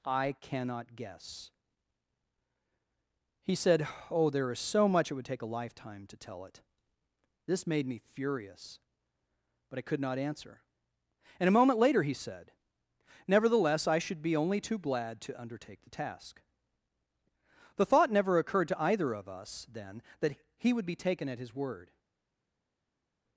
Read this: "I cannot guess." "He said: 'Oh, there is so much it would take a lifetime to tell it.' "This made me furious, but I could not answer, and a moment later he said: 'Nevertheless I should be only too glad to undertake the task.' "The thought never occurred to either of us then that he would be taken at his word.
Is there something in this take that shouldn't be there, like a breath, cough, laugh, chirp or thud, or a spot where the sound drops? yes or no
no